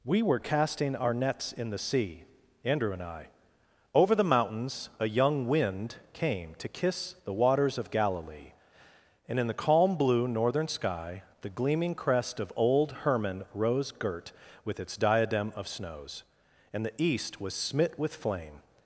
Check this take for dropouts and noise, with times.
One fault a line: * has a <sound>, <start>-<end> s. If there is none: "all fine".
all fine